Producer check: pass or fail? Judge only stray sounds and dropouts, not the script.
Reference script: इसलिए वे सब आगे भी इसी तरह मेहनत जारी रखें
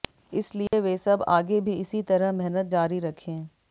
fail